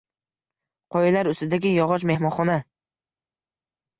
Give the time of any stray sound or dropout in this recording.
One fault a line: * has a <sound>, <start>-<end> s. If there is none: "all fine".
all fine